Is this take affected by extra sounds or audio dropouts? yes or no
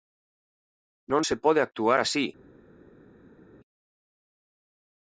no